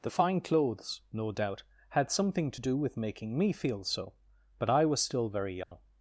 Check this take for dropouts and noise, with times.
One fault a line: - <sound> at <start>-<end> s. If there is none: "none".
- dropout at 5.6-5.7 s